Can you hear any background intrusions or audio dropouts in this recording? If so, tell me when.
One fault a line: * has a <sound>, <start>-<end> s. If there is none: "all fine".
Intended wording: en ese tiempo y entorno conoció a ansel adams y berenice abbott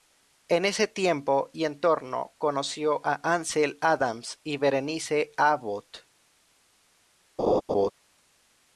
* has a laugh, 7.4-7.9 s